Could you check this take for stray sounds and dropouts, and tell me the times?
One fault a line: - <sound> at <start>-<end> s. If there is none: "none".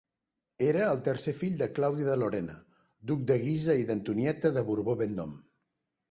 none